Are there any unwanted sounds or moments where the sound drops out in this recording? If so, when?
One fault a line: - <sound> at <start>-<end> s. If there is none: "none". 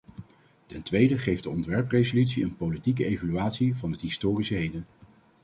none